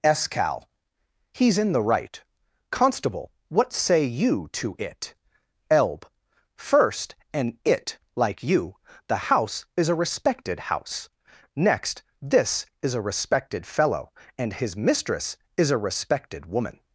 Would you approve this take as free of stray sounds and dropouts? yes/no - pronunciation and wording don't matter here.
yes